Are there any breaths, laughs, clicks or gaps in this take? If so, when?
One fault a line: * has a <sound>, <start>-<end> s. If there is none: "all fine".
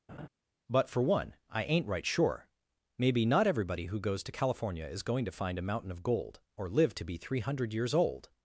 * has a laugh, 0.1-0.3 s